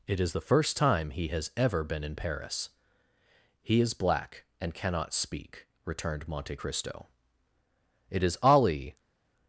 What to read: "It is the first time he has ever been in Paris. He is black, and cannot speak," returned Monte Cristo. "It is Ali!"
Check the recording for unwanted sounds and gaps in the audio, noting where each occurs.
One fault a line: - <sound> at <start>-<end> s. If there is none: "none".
none